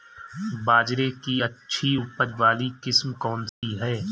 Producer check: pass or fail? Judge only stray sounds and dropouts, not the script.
fail